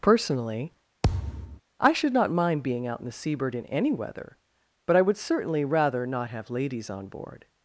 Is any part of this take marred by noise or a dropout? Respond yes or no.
yes